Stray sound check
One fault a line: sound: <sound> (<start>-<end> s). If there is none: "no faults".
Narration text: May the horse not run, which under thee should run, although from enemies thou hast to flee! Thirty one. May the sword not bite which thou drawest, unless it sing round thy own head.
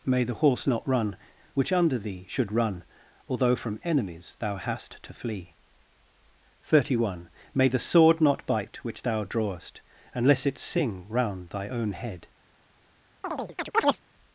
sound: chirp (13.2-14.0 s)